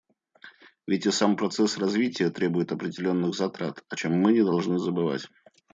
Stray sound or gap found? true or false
false